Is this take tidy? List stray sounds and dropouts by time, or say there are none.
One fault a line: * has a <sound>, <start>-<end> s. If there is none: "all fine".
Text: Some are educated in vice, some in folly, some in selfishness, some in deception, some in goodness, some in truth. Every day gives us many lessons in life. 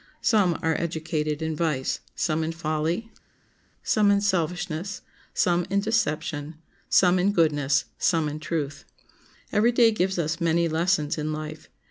all fine